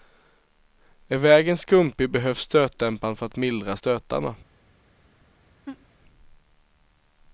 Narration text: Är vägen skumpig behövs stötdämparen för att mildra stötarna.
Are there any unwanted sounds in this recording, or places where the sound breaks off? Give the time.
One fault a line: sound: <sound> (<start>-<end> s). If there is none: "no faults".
sound: laugh (5.7-5.9 s)